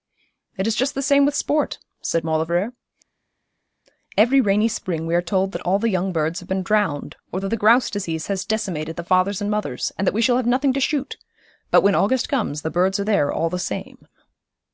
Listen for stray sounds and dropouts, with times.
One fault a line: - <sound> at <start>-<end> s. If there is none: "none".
none